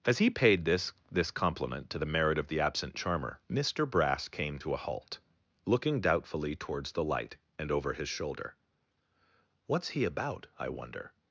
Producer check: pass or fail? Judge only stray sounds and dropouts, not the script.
pass